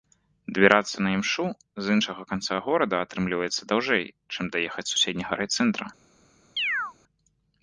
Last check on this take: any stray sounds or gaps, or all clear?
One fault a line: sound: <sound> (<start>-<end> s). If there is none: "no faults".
sound: chirp (6.6-6.9 s)